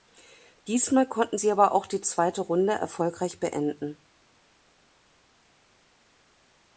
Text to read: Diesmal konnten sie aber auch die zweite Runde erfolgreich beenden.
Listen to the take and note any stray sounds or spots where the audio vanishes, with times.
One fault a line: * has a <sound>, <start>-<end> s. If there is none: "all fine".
all fine